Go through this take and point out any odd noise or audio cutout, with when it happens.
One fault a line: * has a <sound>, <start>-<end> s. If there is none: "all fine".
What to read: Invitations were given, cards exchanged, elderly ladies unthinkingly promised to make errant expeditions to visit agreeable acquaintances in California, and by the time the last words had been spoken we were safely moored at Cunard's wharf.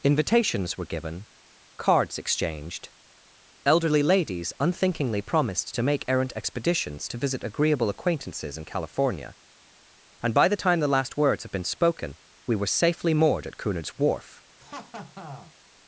* has a laugh, 14.6-15.5 s